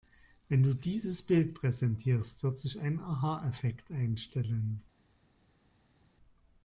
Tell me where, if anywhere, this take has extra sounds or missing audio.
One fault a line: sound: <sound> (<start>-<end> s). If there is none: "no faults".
no faults